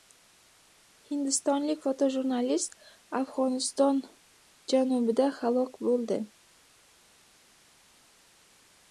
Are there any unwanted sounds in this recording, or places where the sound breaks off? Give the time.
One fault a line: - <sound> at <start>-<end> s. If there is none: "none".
none